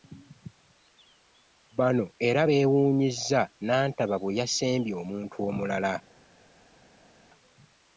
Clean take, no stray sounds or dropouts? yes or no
yes